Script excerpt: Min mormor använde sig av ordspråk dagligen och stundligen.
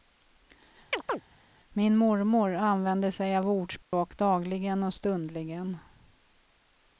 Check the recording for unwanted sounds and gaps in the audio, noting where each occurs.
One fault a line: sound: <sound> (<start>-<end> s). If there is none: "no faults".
sound: chirp (0.9-1.2 s)
sound: dropout (3.8-3.9 s)